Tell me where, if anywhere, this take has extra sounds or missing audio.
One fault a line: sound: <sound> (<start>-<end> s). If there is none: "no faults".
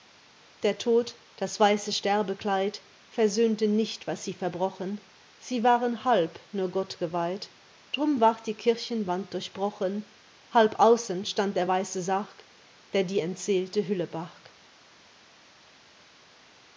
no faults